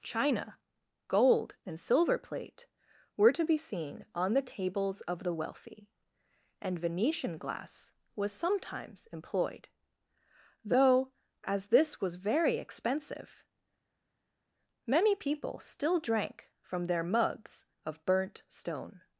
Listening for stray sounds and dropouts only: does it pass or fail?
pass